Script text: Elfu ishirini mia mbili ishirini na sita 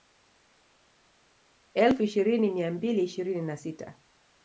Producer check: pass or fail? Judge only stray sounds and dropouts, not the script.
pass